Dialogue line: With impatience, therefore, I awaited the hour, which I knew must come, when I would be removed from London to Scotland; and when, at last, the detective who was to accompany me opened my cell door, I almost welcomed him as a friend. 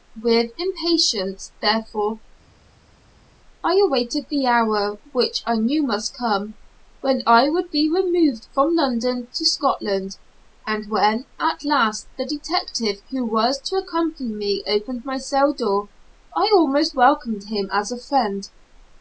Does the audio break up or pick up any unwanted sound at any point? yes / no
no